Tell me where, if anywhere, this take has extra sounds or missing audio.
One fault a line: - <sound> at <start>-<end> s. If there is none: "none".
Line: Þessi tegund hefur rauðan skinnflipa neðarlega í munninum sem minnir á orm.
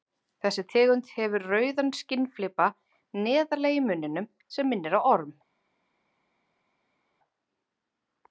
none